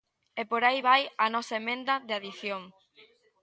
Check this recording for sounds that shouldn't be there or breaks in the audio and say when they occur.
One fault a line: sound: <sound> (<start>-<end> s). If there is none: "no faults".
no faults